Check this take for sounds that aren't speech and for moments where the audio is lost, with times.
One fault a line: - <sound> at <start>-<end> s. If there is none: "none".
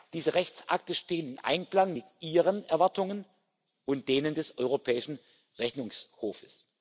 none